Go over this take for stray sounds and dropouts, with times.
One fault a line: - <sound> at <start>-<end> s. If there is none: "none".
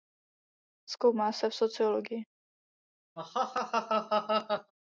- laugh at 3.2-4.7 s